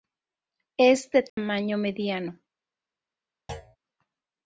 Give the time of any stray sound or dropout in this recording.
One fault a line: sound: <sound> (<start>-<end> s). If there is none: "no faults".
sound: dropout (1.3-1.4 s)
sound: thud (3.5-3.8 s)